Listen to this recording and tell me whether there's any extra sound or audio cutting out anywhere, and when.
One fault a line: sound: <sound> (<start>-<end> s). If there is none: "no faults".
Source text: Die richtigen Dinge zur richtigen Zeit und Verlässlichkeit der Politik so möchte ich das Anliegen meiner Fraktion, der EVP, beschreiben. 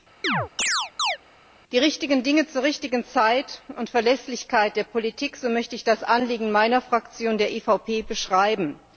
sound: chirp (0.2-1.2 s)